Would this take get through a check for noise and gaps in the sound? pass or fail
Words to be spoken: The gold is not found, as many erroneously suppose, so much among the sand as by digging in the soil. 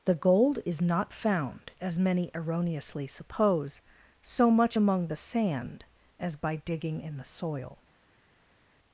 pass